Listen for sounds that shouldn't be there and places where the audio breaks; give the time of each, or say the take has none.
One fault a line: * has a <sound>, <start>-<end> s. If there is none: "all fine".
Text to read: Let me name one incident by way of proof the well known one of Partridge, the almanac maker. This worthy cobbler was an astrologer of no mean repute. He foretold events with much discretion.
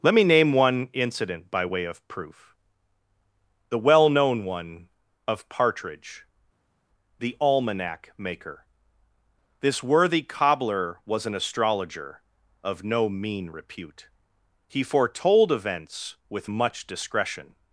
all fine